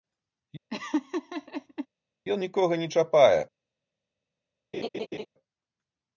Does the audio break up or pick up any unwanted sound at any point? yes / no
yes